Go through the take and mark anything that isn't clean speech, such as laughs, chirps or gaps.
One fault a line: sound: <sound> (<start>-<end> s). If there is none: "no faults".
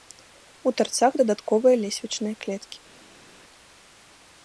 no faults